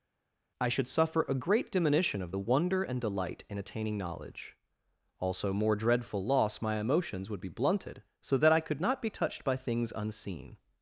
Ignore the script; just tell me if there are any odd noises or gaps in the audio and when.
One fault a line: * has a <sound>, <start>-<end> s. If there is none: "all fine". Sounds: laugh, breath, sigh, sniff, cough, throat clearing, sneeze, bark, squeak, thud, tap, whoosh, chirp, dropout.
all fine